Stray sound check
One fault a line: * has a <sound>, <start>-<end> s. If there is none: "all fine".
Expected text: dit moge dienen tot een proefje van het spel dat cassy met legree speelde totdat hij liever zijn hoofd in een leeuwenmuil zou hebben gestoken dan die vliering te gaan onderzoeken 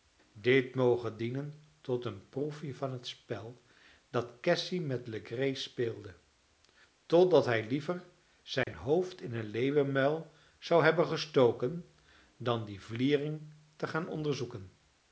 * has a dropout, 8.6-8.7 s